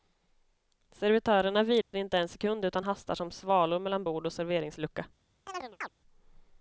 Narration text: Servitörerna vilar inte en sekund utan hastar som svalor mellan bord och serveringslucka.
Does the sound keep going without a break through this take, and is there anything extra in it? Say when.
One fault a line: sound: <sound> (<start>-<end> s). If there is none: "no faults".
sound: dropout (1.8-1.9 s)
sound: chirp (5.5-5.9 s)